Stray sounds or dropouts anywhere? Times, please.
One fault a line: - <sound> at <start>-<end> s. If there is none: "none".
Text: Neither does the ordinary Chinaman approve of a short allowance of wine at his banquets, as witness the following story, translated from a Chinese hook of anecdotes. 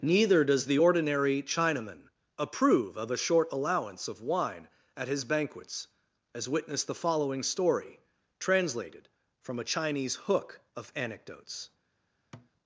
- thud at 12.3-12.5 s